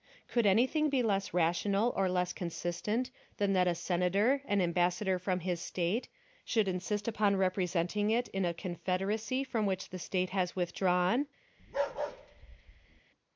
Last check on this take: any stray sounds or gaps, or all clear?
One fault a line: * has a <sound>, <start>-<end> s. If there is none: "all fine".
* has a bark, 11.6-13.0 s